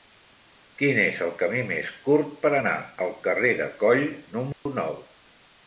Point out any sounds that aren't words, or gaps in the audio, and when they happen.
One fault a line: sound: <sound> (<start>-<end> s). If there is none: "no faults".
sound: dropout (4.5-4.7 s)